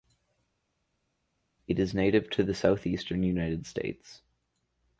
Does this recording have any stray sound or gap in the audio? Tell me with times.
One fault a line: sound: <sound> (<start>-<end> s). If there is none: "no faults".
no faults